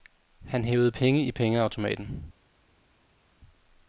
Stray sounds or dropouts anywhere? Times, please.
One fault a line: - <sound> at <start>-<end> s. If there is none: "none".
none